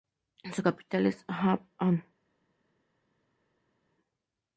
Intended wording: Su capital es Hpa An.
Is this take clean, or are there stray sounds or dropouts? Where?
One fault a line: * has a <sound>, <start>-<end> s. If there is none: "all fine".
all fine